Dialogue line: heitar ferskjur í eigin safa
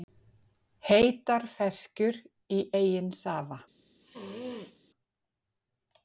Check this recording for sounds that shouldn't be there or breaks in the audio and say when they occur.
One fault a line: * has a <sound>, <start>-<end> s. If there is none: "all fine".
* has a sneeze, 4.0-4.8 s